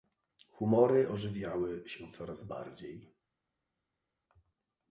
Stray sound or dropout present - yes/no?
no